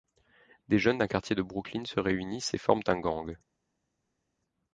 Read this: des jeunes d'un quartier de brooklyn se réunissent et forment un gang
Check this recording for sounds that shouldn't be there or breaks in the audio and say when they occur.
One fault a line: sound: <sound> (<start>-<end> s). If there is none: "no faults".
no faults